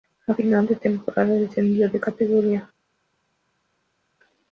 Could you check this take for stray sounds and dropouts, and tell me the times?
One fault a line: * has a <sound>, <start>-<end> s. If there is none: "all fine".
all fine